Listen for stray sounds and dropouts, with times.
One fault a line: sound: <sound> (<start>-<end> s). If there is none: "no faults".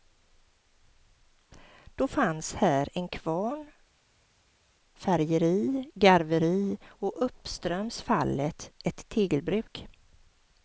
no faults